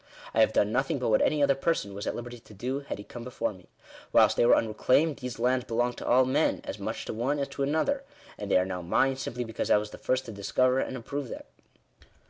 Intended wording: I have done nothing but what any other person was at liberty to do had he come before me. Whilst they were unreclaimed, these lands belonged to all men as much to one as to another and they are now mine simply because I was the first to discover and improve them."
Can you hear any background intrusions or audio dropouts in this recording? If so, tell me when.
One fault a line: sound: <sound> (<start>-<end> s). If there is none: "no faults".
no faults